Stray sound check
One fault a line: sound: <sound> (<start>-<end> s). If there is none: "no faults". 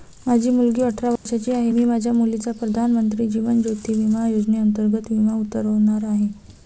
sound: dropout (1.2-1.3 s)